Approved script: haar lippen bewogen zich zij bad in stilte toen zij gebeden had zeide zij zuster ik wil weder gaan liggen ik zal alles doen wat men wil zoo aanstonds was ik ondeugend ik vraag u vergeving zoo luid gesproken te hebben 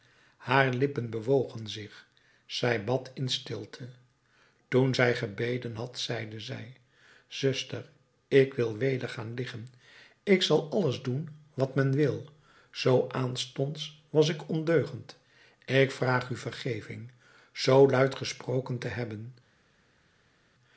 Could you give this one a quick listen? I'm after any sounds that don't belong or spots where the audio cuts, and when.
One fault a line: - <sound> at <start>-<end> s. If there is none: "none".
none